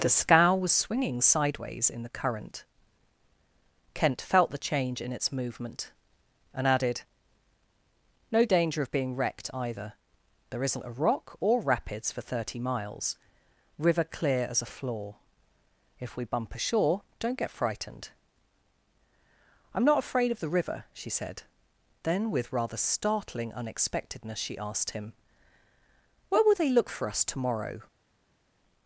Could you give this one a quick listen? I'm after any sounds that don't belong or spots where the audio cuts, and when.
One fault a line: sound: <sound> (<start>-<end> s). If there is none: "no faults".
no faults